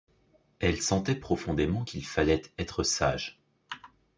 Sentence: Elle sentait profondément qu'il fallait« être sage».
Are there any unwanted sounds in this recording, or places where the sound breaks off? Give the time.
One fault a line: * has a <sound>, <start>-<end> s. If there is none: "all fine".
all fine